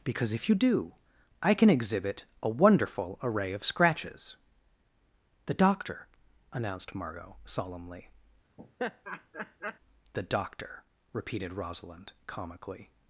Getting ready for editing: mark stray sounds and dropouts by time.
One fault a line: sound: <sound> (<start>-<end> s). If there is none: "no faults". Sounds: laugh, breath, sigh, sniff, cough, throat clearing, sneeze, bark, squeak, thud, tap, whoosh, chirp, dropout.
sound: laugh (8.6-9.8 s)